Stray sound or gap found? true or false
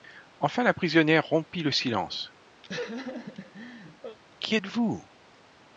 true